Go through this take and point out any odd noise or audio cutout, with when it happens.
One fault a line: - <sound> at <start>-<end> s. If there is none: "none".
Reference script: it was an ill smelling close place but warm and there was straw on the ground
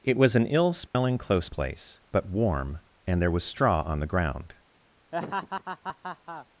- dropout at 0.9-0.9 s
- laugh at 5.1-6.5 s